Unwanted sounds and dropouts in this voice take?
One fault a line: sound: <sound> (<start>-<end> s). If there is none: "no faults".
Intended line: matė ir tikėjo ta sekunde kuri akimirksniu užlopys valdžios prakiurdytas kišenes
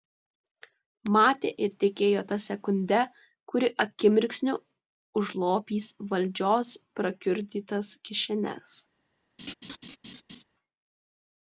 sound: laugh (9.4-10.4 s)